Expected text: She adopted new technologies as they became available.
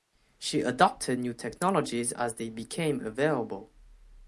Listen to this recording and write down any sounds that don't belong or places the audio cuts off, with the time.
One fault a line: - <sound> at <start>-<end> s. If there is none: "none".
none